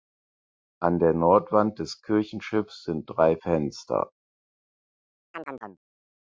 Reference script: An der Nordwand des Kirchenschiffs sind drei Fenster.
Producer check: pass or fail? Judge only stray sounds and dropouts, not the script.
fail